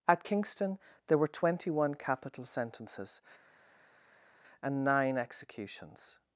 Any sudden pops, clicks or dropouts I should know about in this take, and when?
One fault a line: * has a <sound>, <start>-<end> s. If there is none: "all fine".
all fine